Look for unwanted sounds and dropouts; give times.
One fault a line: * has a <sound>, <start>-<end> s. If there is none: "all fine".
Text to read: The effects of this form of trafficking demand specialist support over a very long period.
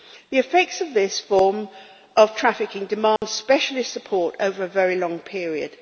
* has a dropout, 3.2-3.2 s